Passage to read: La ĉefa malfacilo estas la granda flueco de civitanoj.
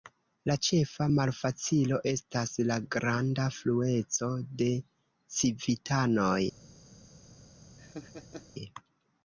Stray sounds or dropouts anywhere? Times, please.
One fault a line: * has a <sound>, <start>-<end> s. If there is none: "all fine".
* has a laugh, 7.8-8.5 s